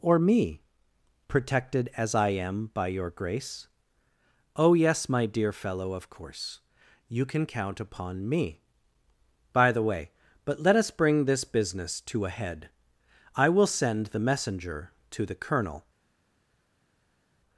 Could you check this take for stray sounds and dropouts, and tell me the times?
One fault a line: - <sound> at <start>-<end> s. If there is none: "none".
none